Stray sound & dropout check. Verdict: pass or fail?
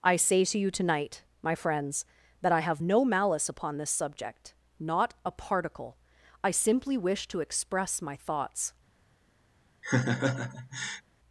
fail